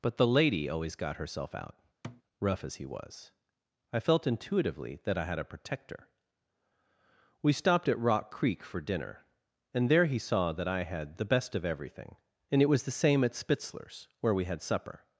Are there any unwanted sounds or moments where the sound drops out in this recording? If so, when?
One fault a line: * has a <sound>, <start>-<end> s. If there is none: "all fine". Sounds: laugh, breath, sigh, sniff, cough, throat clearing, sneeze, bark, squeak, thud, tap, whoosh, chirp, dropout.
* has a thud, 2.0-2.2 s